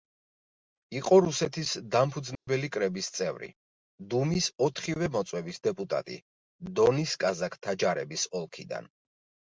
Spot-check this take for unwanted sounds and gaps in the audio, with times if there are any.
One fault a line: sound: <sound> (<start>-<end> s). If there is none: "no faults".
sound: dropout (2.3-2.5 s)